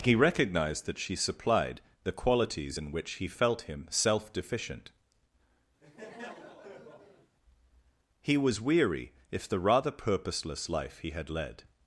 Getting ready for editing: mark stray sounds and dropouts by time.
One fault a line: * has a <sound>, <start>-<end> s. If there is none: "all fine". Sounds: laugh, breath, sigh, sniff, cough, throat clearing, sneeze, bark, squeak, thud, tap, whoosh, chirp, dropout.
* has a laugh, 5.8-7.4 s